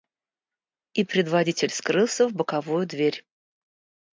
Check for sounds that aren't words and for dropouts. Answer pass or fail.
pass